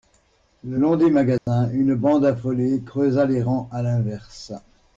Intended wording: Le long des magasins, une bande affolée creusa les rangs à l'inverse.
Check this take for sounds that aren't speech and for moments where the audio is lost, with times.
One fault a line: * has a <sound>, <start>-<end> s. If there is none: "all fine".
* has a dropout, 1.4-1.5 s